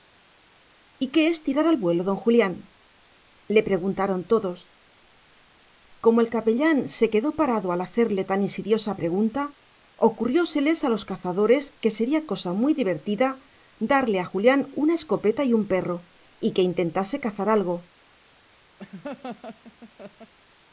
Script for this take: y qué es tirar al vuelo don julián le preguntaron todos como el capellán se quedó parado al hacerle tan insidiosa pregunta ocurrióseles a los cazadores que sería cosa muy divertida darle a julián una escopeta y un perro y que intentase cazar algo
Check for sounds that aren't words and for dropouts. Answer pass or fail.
fail